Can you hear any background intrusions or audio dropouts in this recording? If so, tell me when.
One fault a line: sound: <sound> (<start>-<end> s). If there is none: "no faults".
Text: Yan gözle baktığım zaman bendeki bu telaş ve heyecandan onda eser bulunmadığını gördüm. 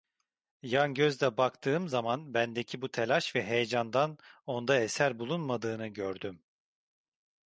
no faults